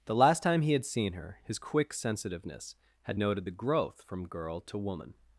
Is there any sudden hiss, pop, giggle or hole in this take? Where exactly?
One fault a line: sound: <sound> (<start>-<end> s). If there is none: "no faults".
no faults